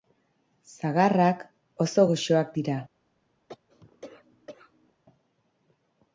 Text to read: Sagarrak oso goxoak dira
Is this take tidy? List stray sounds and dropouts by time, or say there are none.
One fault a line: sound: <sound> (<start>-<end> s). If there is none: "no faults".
sound: cough (3.5-4.9 s)